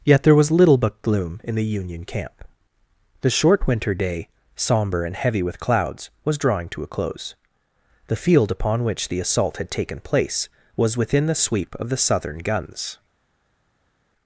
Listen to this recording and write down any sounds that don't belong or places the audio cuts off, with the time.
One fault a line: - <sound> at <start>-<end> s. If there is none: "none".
none